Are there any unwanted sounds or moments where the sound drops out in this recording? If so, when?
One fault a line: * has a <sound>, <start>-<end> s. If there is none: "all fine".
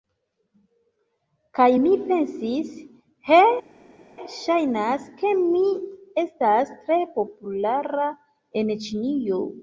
all fine